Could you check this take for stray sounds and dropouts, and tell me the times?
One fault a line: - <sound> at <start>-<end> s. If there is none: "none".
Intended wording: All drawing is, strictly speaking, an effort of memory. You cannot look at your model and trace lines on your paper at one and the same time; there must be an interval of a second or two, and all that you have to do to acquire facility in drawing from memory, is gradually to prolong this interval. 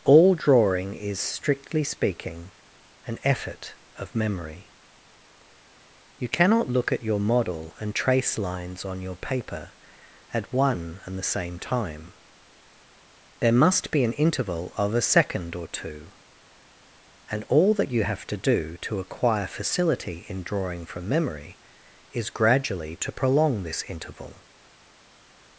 none